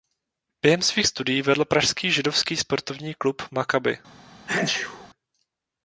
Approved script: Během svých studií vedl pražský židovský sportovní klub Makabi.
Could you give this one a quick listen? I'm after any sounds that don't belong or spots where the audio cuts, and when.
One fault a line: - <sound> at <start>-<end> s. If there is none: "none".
- sneeze at 4.5-5.1 s